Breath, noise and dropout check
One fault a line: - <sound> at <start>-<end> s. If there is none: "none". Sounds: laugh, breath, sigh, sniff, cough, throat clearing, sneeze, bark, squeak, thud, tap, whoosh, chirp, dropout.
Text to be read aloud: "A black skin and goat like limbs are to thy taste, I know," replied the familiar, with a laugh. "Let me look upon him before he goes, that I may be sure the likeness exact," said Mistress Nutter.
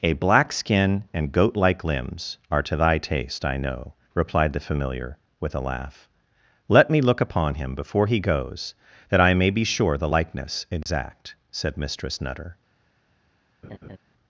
- dropout at 10.8-10.9 s
- laugh at 13.6-14.0 s